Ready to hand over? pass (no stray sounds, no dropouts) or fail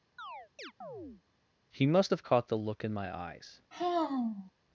fail